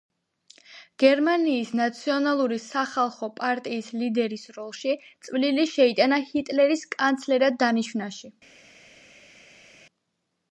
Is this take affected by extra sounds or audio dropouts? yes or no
no